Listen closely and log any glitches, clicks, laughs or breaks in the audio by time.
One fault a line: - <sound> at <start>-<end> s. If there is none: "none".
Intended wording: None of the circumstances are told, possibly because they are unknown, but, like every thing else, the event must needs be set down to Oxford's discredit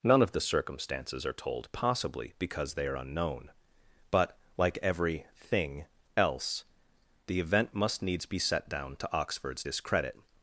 none